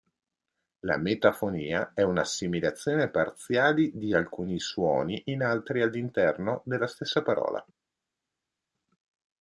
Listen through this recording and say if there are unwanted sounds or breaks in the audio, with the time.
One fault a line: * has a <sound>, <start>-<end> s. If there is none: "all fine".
all fine